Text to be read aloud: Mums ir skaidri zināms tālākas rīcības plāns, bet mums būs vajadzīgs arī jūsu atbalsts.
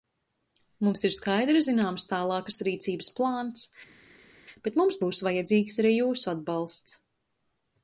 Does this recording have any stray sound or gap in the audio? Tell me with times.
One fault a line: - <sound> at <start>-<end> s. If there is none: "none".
none